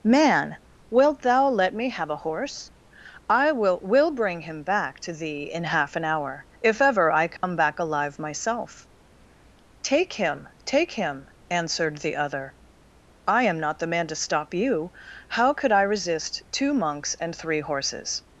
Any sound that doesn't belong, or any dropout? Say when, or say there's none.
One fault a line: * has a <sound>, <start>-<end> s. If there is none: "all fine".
* has a dropout, 7.4-7.4 s